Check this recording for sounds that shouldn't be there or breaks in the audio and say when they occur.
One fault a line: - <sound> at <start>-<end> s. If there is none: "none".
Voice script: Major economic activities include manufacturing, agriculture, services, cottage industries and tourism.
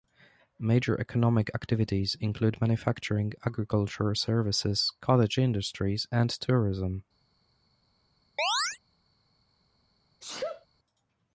- chirp at 8.4-8.8 s
- sneeze at 10.2-10.7 s